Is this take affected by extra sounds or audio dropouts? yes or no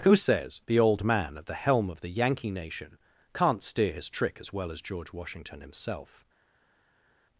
no